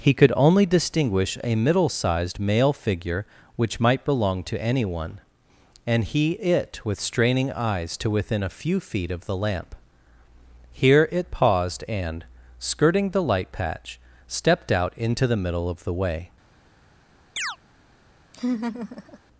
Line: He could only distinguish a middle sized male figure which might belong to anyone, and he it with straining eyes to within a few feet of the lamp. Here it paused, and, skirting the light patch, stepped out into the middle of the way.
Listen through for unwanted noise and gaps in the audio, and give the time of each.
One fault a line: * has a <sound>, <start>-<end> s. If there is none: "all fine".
* has a chirp, 17.4-17.6 s
* has a laugh, 18.3-19.2 s